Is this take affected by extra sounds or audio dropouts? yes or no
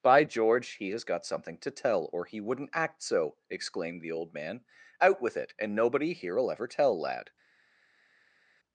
no